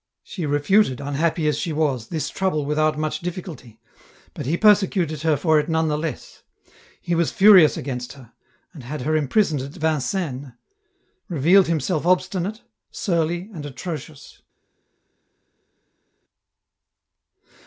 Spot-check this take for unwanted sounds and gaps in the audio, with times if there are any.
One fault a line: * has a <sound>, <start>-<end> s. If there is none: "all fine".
all fine